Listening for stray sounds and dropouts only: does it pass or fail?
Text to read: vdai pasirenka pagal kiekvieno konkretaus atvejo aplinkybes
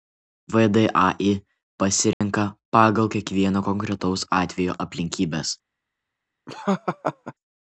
fail